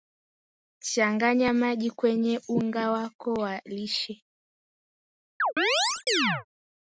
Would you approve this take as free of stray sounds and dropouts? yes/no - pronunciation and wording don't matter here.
no